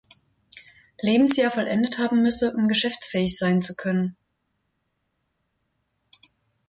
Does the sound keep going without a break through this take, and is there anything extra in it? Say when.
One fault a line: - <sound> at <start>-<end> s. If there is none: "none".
none